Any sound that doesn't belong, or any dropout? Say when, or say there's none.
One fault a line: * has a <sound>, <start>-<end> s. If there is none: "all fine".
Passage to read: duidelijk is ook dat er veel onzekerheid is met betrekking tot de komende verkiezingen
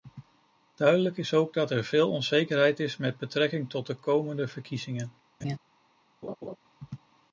* has a laugh, 5.4-5.6 s
* has a laugh, 6.2-6.6 s